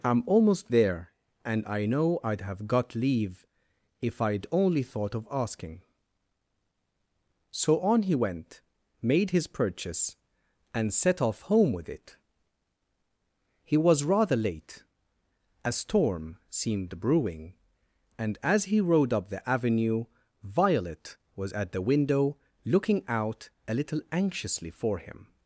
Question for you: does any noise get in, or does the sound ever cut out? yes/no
no